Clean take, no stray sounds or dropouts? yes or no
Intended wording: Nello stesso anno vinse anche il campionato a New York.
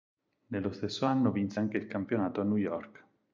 yes